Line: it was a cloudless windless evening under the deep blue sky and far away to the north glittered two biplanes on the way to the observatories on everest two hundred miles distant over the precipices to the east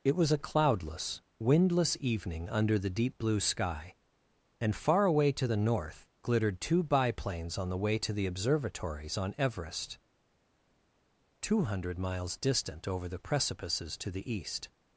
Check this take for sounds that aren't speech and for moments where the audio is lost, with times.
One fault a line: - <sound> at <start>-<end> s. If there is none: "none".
none